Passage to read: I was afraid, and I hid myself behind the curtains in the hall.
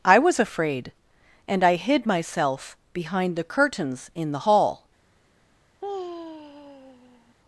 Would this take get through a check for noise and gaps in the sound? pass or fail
fail